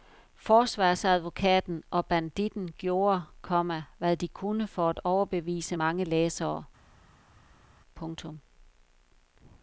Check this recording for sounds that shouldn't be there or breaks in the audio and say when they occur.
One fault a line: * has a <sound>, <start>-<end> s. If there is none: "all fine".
all fine